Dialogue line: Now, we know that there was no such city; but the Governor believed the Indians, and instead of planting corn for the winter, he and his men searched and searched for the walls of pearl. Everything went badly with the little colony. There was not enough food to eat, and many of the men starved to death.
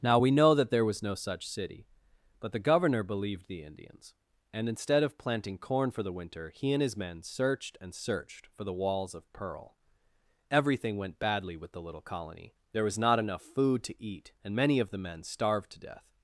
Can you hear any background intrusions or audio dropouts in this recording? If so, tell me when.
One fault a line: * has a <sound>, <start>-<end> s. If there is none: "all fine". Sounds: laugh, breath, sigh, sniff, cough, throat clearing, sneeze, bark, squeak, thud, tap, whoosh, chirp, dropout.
all fine